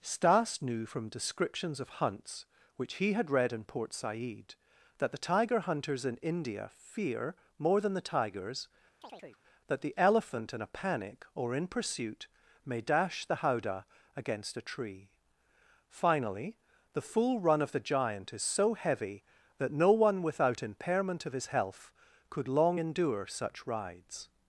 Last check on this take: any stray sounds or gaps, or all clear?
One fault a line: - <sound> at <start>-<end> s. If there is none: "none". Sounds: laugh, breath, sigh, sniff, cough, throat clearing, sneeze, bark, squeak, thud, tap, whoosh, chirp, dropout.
- chirp at 9.0-9.4 s